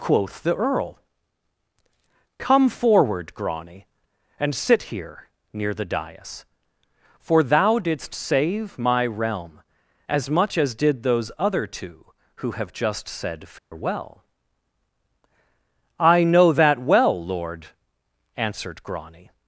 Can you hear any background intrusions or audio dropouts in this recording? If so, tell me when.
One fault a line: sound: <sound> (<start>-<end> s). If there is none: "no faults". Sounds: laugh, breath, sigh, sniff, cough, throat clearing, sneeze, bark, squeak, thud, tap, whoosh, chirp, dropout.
sound: dropout (13.6-13.7 s)